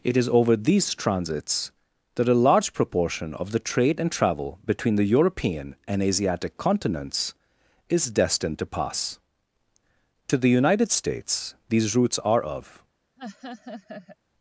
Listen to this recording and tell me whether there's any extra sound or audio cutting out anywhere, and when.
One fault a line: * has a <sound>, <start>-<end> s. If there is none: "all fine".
* has a laugh, 13.2-14.2 s